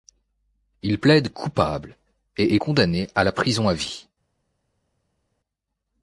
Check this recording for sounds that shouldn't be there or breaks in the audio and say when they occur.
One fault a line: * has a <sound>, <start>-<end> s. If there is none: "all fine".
all fine